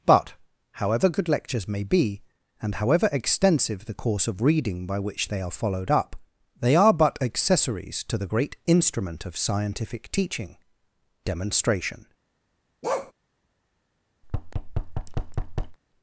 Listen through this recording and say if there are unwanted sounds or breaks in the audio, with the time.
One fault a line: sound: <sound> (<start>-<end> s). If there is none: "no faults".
sound: bark (12.8-13.1 s)
sound: thud (14.2-15.8 s)